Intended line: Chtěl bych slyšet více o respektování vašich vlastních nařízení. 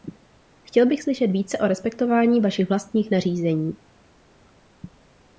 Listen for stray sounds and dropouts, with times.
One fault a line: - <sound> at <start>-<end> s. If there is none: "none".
none